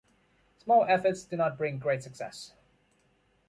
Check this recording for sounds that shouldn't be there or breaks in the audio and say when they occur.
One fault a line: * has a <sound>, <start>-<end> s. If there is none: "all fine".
all fine